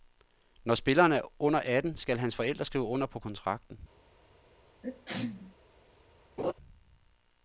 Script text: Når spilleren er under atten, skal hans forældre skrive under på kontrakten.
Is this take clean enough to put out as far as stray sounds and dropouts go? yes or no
no